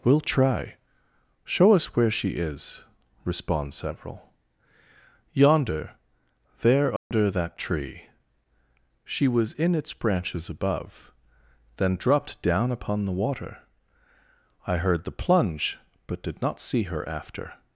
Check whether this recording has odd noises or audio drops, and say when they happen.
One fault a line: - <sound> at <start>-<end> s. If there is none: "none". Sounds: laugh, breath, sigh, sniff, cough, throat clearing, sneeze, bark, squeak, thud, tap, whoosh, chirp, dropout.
- dropout at 7.0-7.1 s